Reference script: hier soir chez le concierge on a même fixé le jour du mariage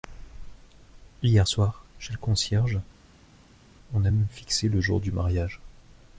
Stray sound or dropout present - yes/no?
no